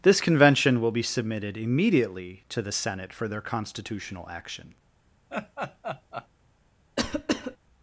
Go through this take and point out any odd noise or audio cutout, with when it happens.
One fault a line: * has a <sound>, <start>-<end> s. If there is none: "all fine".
* has a laugh, 5.3-6.3 s
* has a cough, 7.0-7.6 s